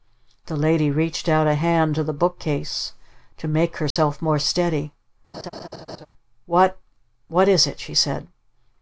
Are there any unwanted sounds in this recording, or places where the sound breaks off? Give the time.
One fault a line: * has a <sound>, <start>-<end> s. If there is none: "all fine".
* has a dropout, 3.9-4.0 s
* has a laugh, 5.3-6.1 s